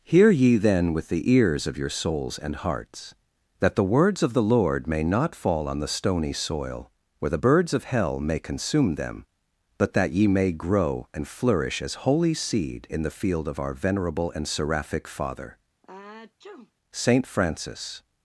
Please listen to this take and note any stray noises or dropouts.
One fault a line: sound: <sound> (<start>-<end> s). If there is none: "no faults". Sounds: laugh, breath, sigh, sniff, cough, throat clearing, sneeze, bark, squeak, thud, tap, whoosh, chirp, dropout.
sound: sneeze (15.8-16.7 s)